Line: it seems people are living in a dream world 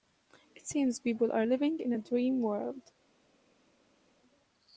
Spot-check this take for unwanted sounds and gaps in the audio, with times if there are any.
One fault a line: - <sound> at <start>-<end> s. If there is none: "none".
none